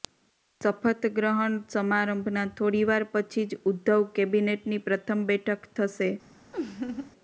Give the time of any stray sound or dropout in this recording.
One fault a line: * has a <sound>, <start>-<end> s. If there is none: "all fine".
* has a laugh, 6.5-7.1 s